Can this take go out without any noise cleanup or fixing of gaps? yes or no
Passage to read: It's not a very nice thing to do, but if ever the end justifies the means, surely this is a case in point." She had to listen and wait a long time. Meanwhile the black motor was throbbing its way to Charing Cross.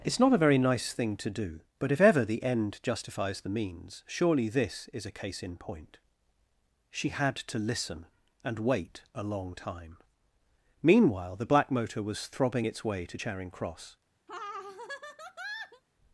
no